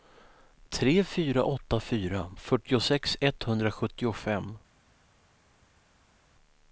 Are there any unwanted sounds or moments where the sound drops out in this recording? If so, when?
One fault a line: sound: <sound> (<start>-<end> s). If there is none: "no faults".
no faults